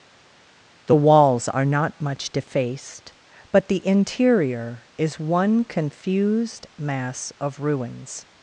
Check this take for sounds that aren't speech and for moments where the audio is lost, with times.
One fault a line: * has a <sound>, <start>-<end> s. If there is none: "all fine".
all fine